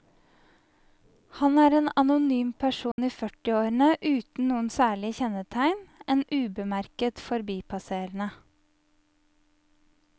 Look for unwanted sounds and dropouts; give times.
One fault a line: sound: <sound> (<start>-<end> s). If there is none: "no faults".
sound: dropout (2.9-3.0 s)